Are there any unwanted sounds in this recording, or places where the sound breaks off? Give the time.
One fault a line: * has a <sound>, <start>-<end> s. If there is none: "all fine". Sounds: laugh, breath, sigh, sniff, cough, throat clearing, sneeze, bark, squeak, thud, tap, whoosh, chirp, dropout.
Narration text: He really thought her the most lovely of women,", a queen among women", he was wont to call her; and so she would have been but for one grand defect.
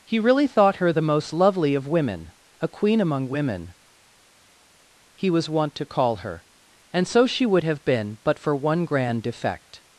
all fine